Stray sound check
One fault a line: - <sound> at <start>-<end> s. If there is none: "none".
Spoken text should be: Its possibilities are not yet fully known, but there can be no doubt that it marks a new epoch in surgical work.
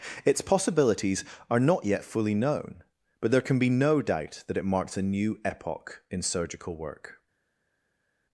none